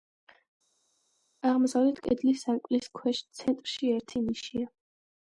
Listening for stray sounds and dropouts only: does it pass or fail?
pass